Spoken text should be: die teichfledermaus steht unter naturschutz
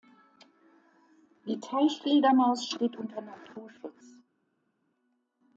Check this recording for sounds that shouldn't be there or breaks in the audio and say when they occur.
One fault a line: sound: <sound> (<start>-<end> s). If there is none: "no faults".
no faults